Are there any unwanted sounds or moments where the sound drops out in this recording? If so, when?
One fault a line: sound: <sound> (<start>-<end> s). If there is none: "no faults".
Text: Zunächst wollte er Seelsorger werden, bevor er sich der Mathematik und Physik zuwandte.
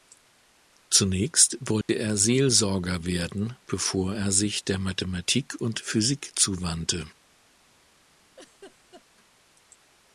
sound: dropout (1.8-1.9 s)
sound: laugh (8.4-9.1 s)